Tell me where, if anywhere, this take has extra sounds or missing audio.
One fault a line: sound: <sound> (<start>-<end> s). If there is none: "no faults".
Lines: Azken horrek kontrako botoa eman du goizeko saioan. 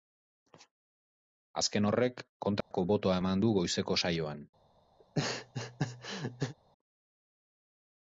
sound: dropout (2.6-2.7 s)
sound: laugh (5.0-6.5 s)